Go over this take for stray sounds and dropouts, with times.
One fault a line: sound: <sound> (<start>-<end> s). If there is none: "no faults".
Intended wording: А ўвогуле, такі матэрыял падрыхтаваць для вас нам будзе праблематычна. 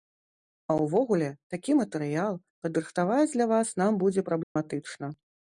sound: dropout (4.4-4.6 s)